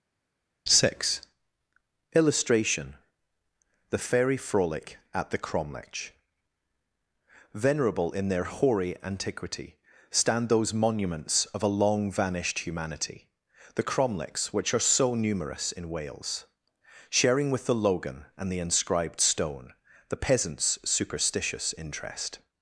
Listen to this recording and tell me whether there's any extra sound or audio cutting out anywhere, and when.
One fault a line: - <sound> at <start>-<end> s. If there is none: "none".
none